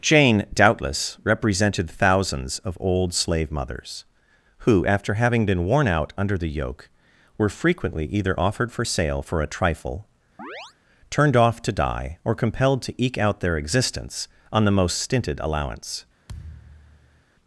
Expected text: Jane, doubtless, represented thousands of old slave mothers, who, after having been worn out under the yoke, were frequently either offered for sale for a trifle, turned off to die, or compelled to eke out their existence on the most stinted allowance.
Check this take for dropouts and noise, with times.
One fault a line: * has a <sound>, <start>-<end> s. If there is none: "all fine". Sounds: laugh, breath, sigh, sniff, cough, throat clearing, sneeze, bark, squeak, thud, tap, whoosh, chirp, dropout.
* has a chirp, 10.4-10.7 s
* has a thud, 16.3-17.2 s